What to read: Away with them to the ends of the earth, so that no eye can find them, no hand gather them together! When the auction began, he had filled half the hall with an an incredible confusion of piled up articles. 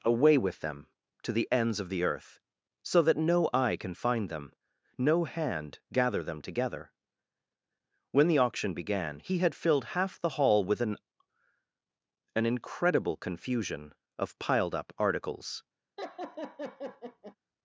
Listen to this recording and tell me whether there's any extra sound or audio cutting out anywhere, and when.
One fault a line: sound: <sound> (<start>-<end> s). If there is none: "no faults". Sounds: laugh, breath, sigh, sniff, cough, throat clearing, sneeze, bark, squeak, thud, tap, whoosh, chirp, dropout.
sound: laugh (16.0-17.4 s)